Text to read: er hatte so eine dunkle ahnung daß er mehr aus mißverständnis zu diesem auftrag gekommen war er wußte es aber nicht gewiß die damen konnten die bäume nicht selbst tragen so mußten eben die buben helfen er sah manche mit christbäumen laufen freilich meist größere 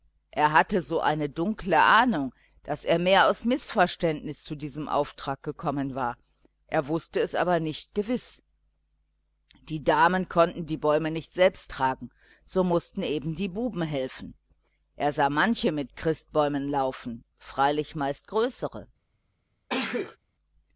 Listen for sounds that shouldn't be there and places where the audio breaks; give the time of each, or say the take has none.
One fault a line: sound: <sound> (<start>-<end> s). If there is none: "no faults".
sound: sneeze (19.7-20.2 s)